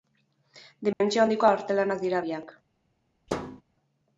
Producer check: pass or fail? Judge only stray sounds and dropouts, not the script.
fail